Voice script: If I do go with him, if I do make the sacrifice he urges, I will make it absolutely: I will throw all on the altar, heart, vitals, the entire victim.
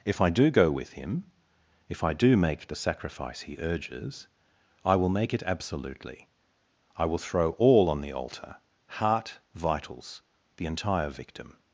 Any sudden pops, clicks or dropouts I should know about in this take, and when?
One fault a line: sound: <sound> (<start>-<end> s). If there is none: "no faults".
no faults